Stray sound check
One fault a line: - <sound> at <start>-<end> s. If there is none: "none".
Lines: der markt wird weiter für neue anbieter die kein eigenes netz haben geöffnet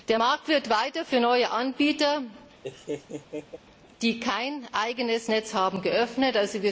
- laugh at 2.6-3.6 s